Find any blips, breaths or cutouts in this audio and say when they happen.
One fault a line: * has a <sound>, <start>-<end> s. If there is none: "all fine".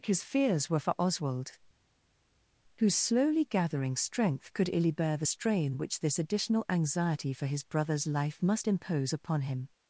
all fine